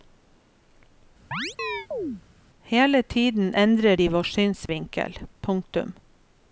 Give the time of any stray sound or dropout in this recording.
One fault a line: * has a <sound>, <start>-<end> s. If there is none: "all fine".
* has a chirp, 1.3-2.2 s
* has a dropout, 4.7-4.7 s